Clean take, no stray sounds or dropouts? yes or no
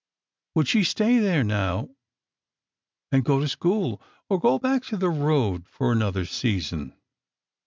yes